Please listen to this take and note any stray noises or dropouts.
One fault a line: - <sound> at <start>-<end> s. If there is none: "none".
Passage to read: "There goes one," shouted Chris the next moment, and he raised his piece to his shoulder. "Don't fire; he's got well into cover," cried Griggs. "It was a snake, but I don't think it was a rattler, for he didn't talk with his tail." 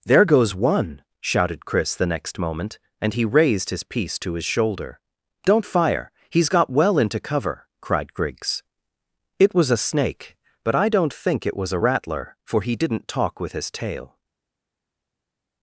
none